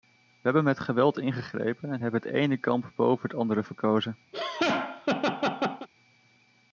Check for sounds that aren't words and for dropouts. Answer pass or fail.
fail